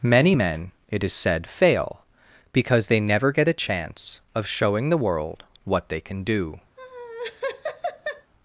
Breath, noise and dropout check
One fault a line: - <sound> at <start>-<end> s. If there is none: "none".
- laugh at 6.8-8.3 s